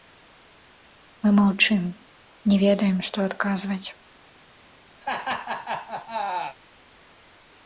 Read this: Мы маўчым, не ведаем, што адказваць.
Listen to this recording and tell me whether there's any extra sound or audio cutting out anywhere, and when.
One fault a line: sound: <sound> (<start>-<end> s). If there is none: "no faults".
sound: laugh (5.0-6.6 s)